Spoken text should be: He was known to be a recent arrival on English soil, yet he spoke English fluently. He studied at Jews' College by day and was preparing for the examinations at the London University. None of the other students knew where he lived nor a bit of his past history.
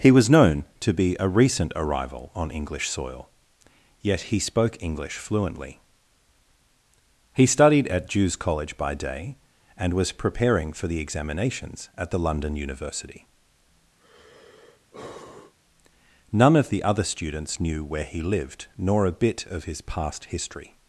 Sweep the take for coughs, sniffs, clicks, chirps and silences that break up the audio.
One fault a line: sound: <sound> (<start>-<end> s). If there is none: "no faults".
sound: sigh (14.0-15.5 s)